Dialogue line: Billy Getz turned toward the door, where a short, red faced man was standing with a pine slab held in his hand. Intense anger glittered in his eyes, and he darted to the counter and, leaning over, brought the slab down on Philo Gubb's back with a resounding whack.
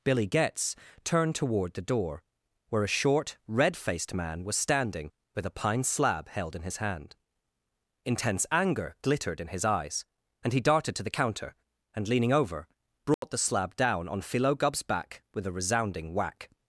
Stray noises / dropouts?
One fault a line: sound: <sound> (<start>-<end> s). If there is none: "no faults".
sound: dropout (13.1-13.2 s)